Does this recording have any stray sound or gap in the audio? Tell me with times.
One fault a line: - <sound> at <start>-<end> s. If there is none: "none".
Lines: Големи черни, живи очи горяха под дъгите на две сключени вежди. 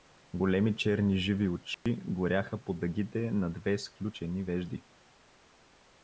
- dropout at 1.7-1.9 s